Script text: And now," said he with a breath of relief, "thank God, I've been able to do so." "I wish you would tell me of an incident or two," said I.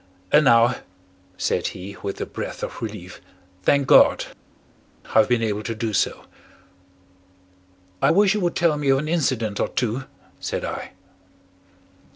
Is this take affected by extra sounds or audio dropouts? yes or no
no